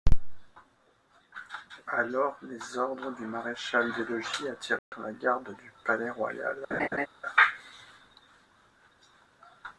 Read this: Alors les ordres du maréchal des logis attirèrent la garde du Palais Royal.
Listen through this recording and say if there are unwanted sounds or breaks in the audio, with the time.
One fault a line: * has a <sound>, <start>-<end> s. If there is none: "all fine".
* has a dropout, 4.8-4.9 s
* has a laugh, 6.7-7.1 s